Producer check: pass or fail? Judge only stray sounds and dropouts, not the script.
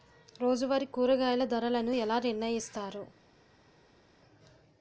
pass